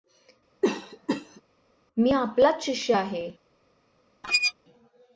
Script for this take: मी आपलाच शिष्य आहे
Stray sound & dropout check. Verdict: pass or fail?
fail